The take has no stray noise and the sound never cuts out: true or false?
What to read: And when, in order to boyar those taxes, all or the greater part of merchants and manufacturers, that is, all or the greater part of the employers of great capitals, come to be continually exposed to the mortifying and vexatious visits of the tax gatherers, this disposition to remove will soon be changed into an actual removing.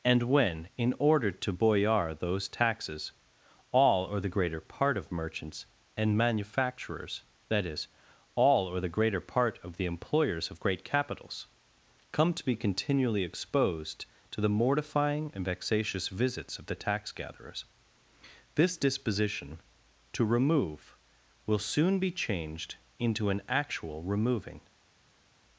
true